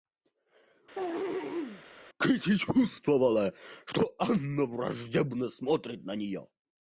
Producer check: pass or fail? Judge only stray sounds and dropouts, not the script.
fail